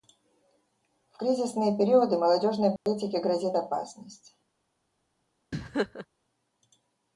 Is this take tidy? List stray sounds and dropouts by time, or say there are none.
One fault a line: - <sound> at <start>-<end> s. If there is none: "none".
- dropout at 2.8-2.9 s
- laugh at 5.5-6.1 s